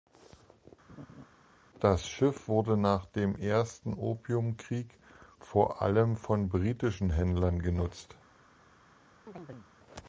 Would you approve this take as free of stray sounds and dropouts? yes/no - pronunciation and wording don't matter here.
no